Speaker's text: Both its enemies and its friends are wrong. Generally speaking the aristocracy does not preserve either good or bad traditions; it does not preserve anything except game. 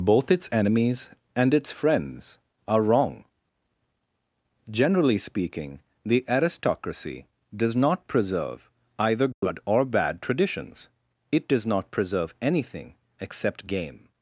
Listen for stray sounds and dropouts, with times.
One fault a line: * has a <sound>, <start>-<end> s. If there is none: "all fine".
* has a dropout, 9.3-9.4 s